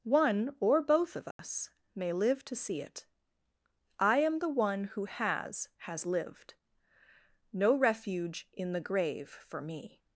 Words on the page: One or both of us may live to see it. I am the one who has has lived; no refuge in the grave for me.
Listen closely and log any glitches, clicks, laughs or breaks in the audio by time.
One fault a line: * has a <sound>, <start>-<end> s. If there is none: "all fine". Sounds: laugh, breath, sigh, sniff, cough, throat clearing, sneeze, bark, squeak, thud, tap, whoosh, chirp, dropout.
* has a dropout, 1.3-1.4 s